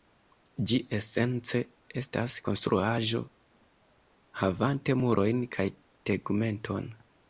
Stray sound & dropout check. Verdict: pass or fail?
pass